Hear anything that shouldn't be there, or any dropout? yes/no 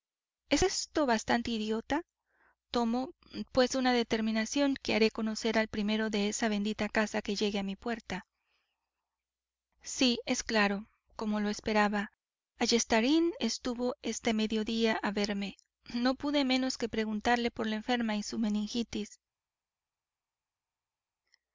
no